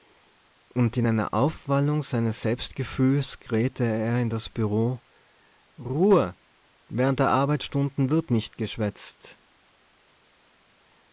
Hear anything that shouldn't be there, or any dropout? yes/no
no